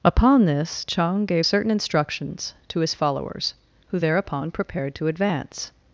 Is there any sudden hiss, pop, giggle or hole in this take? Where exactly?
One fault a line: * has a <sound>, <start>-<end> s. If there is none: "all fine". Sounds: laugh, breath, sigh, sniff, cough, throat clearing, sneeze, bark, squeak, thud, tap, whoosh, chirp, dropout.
all fine